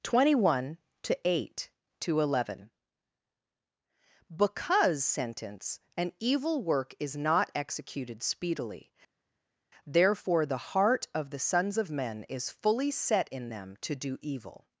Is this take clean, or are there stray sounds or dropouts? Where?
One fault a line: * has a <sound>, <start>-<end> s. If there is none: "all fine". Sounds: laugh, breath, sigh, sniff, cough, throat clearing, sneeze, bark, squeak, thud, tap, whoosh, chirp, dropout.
all fine